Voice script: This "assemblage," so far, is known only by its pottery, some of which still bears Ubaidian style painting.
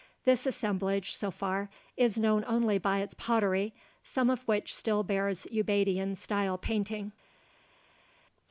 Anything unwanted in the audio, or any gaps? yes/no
no